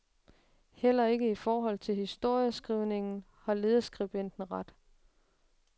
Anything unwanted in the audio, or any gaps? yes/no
no